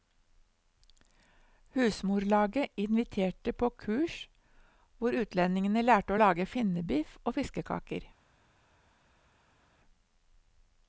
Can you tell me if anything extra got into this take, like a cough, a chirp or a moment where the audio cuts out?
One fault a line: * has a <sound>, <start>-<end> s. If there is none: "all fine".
all fine